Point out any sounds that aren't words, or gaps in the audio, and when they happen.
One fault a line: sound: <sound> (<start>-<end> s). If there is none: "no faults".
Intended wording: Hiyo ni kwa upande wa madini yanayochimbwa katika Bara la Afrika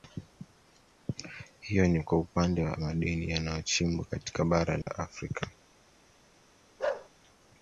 sound: dropout (4.8-4.9 s)
sound: bark (6.8-7.1 s)